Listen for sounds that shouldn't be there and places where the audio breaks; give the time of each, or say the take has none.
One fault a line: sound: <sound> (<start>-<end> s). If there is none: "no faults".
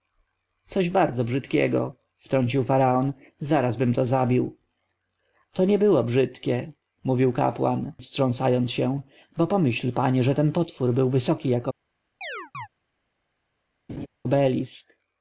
sound: chirp (12.2-12.7 s)
sound: laugh (13.9-14.1 s)